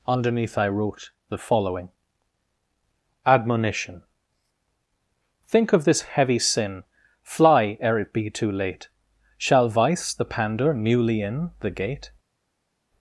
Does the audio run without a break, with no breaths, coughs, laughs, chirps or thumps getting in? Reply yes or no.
yes